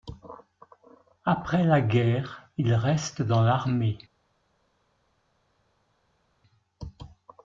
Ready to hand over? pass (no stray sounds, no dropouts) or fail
pass